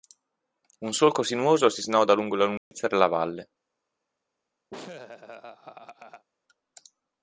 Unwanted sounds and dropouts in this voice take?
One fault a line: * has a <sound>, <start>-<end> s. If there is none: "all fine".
* has a dropout, 2.6-2.7 s
* has a laugh, 4.7-6.3 s